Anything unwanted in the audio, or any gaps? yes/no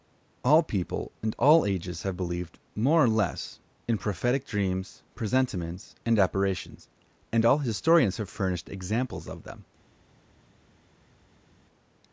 no